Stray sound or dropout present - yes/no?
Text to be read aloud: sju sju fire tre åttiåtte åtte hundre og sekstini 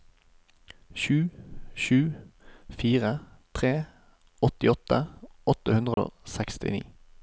yes